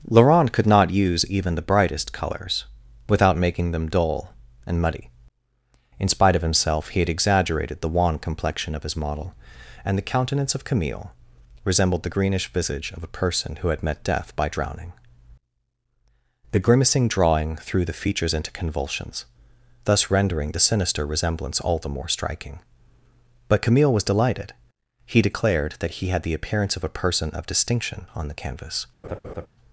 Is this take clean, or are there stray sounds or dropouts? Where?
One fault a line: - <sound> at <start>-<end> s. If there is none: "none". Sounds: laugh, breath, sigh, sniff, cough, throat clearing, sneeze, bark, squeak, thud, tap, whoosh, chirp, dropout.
- laugh at 29.0-29.5 s